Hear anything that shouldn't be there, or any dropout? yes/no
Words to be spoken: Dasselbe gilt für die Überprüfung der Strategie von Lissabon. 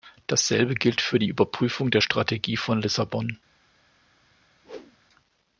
yes